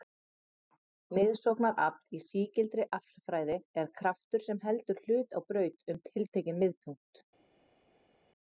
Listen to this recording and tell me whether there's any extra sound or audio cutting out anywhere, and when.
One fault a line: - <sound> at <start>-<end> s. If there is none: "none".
none